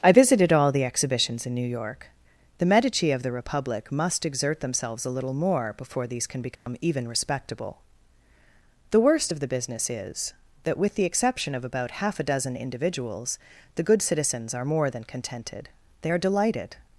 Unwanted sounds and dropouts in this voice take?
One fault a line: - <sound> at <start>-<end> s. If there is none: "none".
- dropout at 6.6-6.7 s